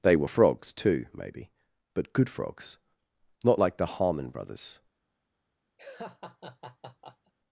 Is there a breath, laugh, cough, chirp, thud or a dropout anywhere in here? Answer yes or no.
yes